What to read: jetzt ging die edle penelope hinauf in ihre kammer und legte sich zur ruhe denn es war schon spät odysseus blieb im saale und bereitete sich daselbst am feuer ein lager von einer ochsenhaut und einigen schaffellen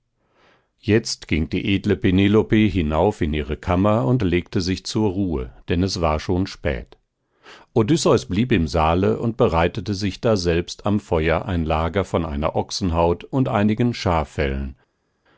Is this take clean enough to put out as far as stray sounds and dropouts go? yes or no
yes